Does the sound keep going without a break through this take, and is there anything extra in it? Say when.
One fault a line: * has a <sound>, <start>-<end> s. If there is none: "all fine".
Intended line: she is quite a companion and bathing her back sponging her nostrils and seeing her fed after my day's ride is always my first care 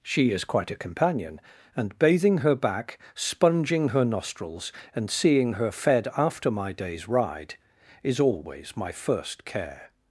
all fine